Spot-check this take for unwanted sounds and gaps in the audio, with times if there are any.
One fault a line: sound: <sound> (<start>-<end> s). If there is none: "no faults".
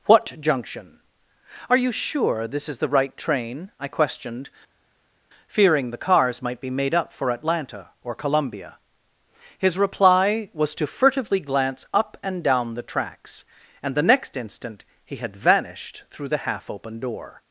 no faults